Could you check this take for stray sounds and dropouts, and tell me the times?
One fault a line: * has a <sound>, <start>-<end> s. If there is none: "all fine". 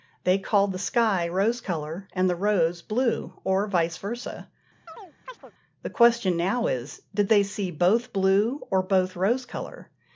* has a chirp, 4.9-5.5 s